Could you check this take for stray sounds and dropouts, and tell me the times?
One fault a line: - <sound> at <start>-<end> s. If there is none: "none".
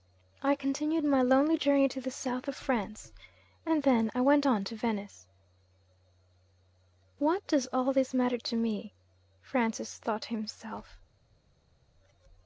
none